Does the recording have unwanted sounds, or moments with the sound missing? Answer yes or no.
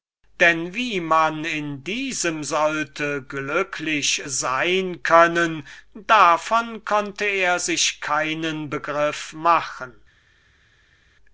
no